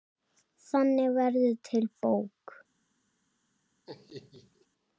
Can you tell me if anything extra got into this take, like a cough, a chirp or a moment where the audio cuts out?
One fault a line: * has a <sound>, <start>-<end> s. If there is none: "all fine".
* has a laugh, 3.9-4.7 s